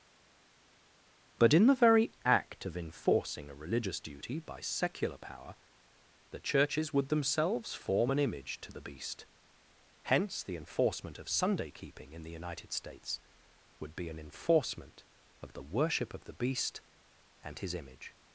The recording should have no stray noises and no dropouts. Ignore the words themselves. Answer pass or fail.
pass